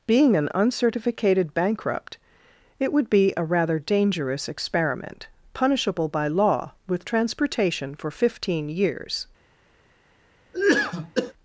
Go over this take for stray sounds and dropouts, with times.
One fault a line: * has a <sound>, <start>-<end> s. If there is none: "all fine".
* has a cough, 10.5-11.3 s